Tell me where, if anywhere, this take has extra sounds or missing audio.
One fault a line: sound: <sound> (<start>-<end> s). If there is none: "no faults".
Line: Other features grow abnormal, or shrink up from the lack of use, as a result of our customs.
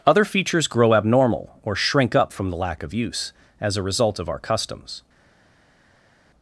no faults